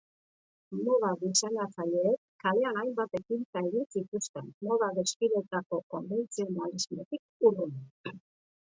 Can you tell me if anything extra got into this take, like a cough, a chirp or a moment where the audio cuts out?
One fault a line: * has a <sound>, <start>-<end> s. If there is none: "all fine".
all fine